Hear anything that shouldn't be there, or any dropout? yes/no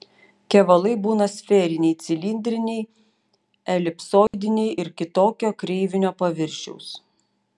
yes